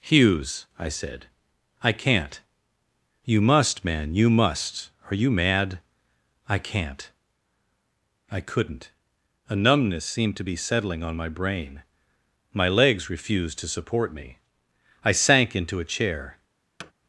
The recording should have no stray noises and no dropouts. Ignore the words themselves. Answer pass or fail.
fail